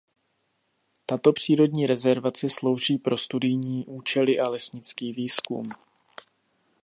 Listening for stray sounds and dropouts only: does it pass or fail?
pass